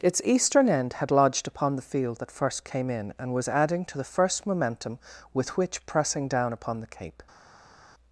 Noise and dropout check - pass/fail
pass